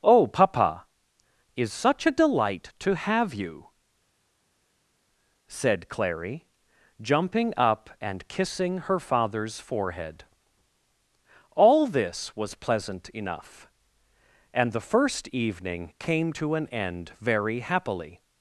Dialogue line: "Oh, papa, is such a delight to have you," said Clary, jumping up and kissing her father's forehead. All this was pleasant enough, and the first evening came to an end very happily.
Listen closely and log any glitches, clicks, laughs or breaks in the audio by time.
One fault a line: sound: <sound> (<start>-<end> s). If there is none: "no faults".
no faults